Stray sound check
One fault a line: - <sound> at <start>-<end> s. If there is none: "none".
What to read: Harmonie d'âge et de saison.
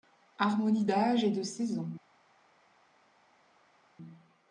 none